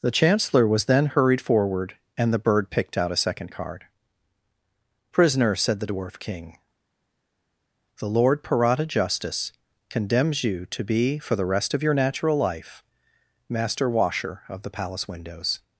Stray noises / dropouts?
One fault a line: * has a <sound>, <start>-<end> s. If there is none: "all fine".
all fine